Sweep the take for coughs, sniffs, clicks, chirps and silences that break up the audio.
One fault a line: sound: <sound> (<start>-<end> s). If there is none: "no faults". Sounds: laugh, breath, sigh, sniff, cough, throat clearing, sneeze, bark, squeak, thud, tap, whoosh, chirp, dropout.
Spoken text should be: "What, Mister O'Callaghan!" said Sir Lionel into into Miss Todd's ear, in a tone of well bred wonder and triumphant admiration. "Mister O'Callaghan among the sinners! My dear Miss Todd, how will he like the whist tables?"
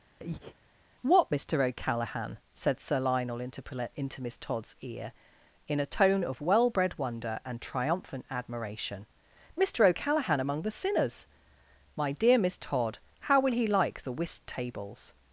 sound: breath (0.2-0.6 s)